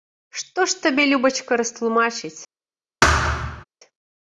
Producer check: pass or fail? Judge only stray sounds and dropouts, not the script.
fail